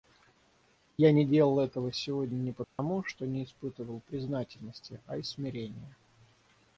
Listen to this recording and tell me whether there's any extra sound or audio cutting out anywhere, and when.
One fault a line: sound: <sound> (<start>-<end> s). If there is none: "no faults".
sound: dropout (2.6-2.8 s)